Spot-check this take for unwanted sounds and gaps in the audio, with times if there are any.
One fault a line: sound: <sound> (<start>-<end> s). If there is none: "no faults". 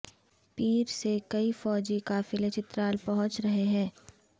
no faults